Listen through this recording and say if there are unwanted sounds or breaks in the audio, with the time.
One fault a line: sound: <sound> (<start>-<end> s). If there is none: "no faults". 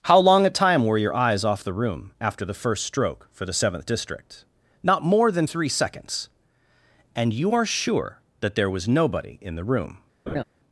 sound: laugh (10.3-10.4 s)